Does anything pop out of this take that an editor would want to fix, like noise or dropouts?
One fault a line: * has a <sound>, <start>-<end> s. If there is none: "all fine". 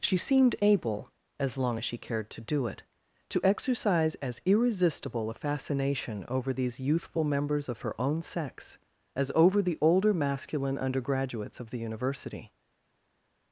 all fine